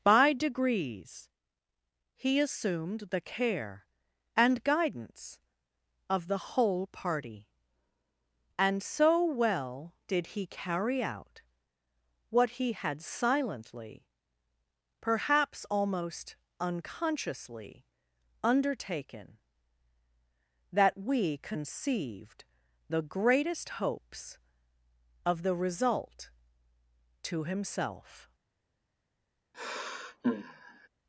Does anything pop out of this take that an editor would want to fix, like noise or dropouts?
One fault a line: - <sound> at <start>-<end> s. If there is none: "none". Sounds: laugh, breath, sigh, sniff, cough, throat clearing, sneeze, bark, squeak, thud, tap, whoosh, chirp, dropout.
- sigh at 29.5-30.9 s